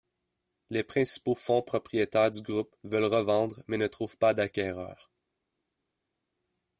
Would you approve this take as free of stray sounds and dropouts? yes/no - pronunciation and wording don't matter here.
yes